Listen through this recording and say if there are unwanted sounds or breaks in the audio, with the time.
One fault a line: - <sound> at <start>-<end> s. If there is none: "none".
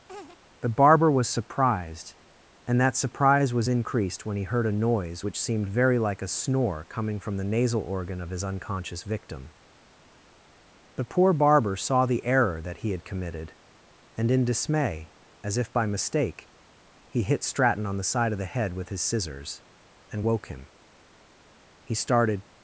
- laugh at 0.1-0.4 s